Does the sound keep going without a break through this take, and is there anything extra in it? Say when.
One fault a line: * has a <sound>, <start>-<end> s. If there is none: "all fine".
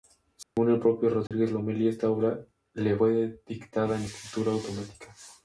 * has a dropout, 0.4-0.6 s
* has a dropout, 1.3-1.3 s